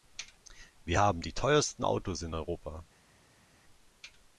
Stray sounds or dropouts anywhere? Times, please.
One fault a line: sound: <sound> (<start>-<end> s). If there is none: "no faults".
no faults